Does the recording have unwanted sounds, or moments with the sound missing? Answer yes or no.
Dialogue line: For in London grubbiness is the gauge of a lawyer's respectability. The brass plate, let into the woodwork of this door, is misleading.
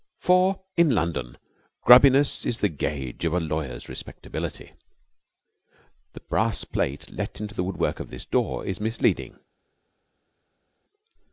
no